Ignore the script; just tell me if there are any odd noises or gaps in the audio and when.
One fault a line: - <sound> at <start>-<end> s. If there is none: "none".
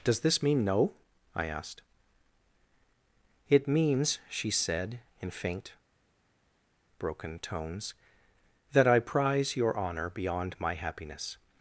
none